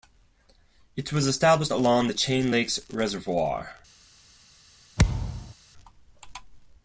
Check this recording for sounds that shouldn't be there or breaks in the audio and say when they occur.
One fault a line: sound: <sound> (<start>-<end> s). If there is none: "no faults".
sound: thud (5.0-5.5 s)